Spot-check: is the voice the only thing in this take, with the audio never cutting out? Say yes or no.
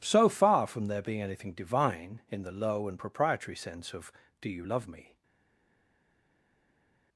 yes